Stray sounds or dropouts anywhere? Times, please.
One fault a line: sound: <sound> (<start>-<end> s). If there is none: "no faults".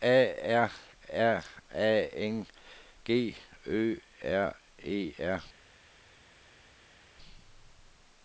no faults